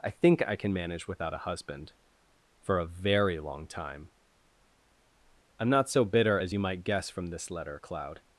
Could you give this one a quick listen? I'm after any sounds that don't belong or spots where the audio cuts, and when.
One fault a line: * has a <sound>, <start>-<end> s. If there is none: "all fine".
all fine